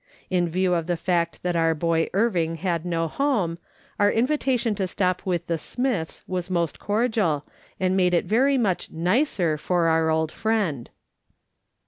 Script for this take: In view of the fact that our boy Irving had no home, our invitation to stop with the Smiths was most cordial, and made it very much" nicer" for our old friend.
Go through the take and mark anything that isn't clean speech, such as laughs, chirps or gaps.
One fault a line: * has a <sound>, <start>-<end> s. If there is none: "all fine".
all fine